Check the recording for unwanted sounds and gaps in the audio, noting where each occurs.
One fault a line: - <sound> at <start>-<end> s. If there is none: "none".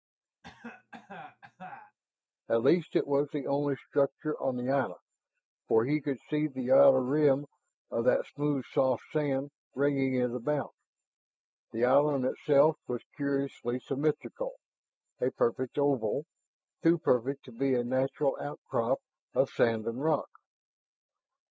- cough at 0.4-2.0 s